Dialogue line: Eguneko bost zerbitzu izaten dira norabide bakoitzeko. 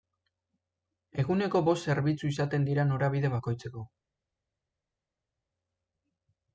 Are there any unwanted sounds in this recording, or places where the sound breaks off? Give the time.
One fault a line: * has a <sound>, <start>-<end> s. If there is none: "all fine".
all fine